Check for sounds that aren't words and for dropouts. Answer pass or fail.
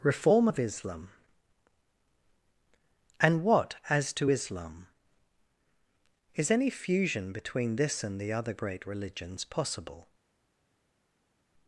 pass